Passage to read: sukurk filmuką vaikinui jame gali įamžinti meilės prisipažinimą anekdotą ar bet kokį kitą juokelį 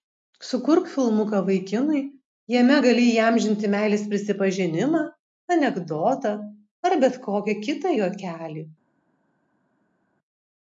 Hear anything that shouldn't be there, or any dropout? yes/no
no